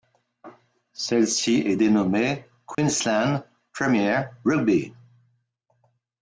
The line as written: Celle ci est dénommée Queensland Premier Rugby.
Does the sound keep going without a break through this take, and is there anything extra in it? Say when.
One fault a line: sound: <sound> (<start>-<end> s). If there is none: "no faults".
sound: dropout (2.7-2.8 s)